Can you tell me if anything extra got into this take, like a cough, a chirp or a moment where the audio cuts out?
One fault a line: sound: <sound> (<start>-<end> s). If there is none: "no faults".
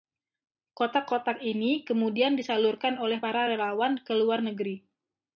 no faults